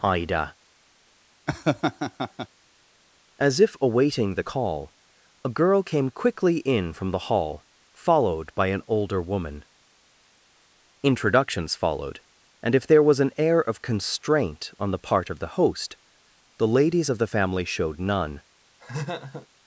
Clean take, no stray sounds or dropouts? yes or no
no